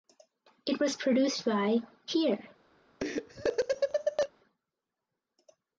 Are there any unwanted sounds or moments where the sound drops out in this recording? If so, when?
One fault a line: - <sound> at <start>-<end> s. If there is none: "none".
- laugh at 3.0-4.3 s